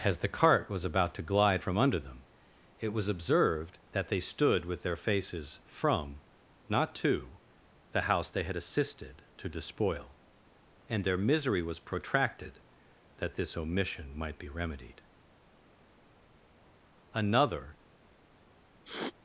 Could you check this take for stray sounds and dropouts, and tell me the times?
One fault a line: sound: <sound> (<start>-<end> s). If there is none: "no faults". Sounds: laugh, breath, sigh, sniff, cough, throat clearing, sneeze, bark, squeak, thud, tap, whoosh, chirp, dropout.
sound: sniff (18.8-19.1 s)